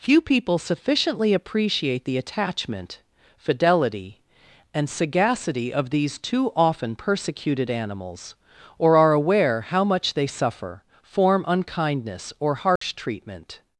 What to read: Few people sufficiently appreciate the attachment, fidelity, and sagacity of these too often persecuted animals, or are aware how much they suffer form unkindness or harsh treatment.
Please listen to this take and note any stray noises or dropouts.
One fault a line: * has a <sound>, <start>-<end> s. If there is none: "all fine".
* has a dropout, 12.8-12.8 s